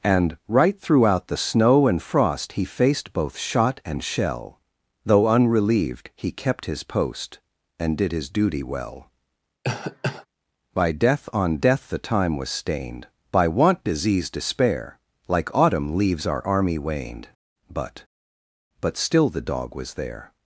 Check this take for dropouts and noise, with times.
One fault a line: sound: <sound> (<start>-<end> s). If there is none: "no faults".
sound: cough (9.6-10.3 s)